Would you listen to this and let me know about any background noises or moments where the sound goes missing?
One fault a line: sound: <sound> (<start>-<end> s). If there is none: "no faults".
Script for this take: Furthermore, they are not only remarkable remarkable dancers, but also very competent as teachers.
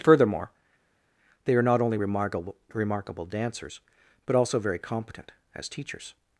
no faults